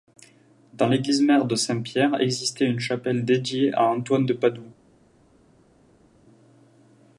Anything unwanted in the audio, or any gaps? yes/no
no